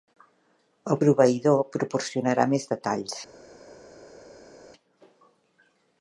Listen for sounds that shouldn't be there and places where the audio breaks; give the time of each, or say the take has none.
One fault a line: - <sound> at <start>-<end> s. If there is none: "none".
none